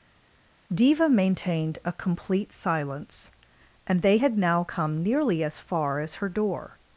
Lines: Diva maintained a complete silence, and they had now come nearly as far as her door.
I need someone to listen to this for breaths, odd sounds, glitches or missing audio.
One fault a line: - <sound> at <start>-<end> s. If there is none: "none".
none